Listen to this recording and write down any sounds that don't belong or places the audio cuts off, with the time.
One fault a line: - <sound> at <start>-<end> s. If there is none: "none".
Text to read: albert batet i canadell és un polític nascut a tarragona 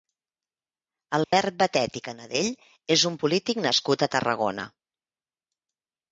- dropout at 1.2-1.3 s